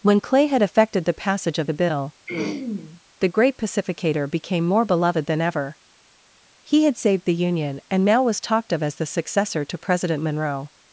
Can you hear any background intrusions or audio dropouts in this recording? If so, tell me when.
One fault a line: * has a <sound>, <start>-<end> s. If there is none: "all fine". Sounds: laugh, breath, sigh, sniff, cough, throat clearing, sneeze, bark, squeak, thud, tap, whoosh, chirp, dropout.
* has a throat clearing, 2.3-3.0 s